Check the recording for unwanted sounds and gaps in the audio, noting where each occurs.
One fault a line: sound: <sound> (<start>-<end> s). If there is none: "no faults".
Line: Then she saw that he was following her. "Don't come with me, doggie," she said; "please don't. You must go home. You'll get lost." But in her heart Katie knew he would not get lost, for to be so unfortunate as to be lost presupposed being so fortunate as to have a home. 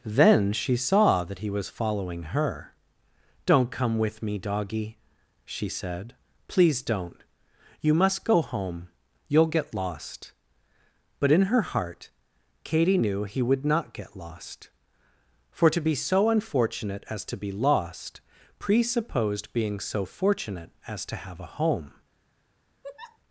sound: laugh (22.8-23.2 s)